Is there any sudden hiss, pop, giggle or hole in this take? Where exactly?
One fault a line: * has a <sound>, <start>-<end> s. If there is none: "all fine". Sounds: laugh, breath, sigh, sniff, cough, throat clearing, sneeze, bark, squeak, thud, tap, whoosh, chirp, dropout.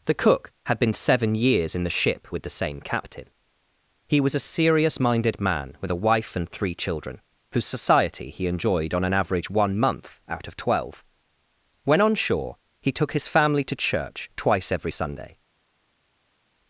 all fine